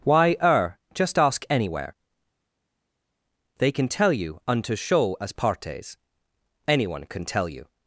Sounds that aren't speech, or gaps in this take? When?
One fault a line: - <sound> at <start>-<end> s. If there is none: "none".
none